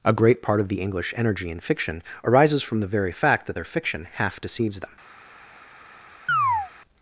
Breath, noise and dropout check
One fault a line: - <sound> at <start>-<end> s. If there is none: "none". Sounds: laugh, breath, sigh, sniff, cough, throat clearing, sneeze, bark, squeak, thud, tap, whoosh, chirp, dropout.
- chirp at 6.3-6.7 s